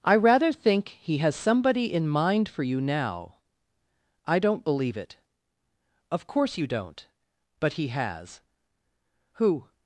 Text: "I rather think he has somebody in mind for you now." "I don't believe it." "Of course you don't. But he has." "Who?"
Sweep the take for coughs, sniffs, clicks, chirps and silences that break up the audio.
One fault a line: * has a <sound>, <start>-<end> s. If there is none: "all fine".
all fine